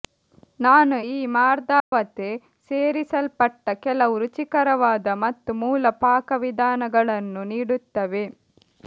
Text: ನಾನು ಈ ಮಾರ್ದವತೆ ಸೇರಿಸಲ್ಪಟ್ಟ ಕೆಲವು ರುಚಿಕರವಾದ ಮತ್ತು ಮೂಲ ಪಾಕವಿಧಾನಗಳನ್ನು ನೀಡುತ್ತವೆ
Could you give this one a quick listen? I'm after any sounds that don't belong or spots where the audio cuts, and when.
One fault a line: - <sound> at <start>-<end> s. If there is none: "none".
- dropout at 1.8-1.9 s